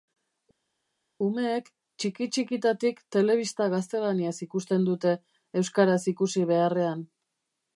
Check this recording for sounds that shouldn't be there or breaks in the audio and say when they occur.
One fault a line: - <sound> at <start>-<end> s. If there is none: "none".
none